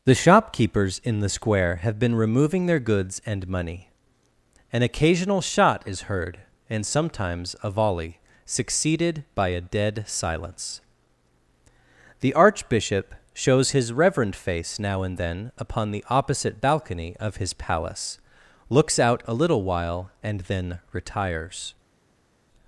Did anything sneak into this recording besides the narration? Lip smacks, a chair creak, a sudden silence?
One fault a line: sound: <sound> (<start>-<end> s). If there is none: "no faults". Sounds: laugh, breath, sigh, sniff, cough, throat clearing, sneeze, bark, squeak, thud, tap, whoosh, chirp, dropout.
no faults